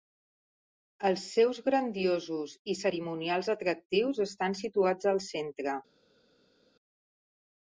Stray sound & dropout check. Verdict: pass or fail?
pass